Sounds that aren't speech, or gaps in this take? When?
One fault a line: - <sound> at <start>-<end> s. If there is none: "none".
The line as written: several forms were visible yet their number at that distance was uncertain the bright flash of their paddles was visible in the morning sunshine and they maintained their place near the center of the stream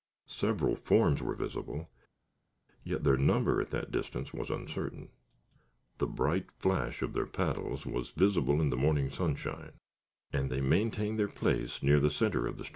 none